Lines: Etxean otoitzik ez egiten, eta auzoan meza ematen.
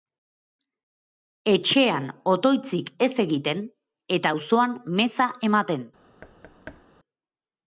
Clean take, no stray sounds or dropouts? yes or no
no